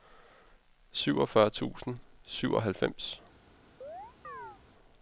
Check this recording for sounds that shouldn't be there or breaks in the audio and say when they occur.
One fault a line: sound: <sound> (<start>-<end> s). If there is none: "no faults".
sound: chirp (3.8-4.6 s)